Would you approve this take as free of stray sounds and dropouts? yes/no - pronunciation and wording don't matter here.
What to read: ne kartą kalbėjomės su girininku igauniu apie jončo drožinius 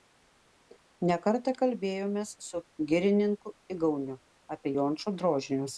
yes